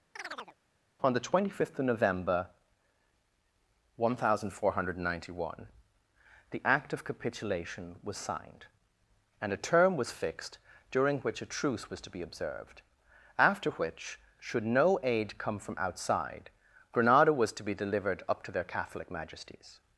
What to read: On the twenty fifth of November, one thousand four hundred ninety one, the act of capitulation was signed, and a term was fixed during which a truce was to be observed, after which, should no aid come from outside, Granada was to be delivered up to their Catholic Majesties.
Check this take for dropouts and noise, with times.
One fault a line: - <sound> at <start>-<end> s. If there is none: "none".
- chirp at 0.2-0.6 s